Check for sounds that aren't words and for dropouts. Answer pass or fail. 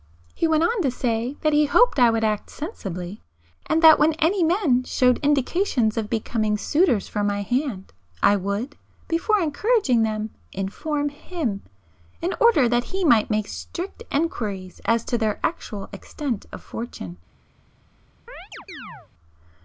fail